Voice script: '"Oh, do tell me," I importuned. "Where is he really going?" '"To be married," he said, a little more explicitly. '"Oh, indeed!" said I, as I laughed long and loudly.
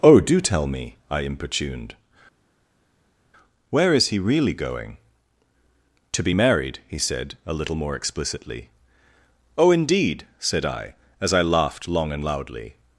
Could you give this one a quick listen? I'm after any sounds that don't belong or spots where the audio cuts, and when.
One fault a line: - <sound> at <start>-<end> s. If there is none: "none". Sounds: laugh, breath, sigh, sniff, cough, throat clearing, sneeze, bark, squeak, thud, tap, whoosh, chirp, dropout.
none